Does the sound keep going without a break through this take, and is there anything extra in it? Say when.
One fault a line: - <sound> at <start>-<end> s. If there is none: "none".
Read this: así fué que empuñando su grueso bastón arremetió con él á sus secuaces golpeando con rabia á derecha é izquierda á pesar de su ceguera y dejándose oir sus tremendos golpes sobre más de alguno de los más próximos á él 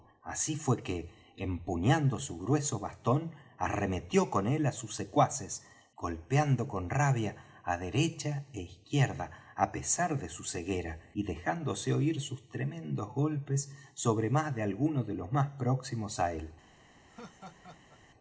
- laugh at 17.1-18.0 s